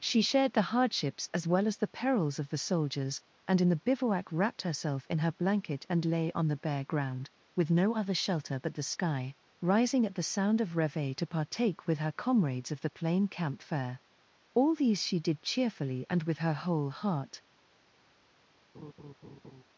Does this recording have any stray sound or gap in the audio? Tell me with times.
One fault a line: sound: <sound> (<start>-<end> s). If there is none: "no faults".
sound: laugh (18.7-19.6 s)